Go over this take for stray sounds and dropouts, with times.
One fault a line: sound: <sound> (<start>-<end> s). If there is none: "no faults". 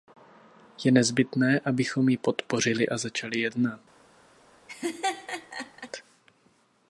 sound: laugh (4.7-5.9 s)